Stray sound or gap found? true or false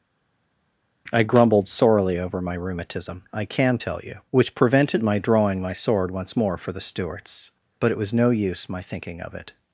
false